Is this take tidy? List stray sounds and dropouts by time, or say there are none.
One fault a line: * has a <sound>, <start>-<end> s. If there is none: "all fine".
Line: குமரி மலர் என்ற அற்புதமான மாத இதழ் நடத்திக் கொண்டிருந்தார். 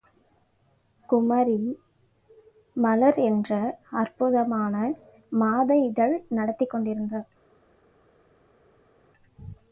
all fine